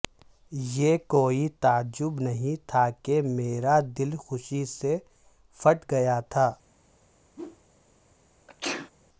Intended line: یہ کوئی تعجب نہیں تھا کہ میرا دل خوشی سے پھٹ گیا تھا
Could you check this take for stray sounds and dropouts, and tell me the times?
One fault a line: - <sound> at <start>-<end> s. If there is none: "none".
- whoosh at 7.4-7.6 s
- sneeze at 8.5-8.9 s